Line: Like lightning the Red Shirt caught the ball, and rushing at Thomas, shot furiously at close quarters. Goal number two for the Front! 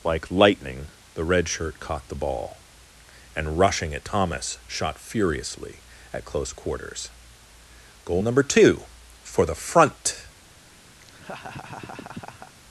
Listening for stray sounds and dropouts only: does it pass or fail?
fail